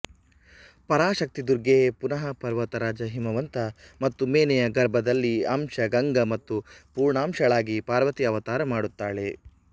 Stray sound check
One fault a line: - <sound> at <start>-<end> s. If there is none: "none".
none